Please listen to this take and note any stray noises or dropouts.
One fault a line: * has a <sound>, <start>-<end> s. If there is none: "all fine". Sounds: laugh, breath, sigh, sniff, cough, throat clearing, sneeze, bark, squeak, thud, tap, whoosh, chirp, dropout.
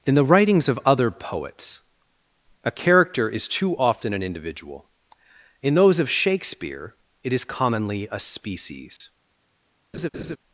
* has a dropout, 9.0-9.0 s
* has a laugh, 9.9-10.4 s